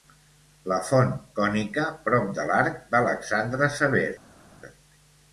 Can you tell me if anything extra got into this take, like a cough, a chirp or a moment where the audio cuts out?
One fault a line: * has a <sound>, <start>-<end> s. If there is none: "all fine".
all fine